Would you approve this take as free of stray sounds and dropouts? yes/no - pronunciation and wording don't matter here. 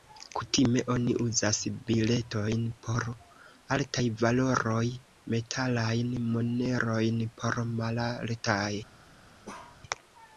no